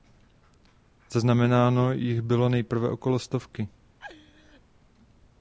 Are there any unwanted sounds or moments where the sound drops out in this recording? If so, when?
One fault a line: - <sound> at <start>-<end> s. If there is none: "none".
- laugh at 4.0-4.6 s